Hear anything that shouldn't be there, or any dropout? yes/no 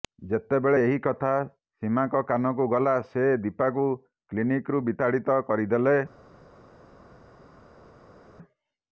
no